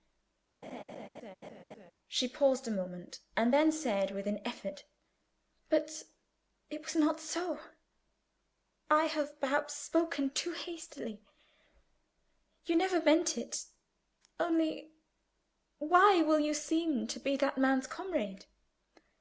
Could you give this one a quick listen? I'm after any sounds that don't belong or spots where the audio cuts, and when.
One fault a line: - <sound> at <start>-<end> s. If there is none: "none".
- laugh at 0.6-1.9 s